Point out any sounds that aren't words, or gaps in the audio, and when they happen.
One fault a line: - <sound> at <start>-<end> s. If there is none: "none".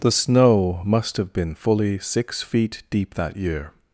none